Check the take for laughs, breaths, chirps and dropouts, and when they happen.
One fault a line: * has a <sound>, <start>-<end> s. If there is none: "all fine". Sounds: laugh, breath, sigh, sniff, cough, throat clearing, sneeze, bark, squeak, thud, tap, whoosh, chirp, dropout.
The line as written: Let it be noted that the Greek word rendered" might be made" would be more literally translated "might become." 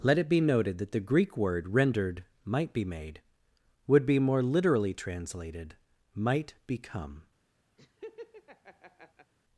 * has a laugh, 7.8-9.3 s